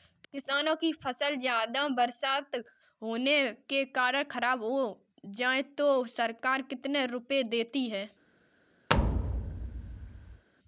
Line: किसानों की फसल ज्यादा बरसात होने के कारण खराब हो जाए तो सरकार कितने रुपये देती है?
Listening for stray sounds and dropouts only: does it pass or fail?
fail